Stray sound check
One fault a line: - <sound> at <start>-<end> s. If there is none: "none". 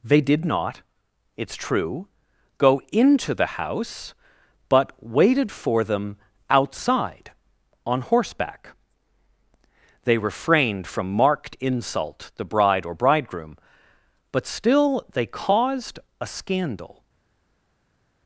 none